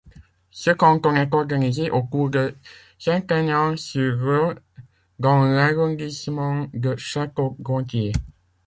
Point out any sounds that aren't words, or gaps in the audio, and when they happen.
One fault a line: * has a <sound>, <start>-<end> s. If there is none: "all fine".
all fine